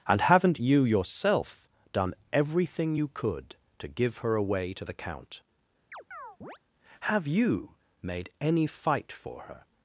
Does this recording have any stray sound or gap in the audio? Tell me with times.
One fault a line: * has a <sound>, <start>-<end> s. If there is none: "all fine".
* has a chirp, 5.9-6.6 s